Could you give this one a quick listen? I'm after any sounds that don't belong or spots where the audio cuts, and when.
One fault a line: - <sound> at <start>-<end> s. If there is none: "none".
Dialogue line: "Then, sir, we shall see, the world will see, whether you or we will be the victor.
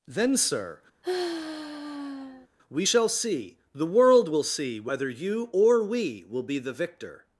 - sigh at 1.0-2.5 s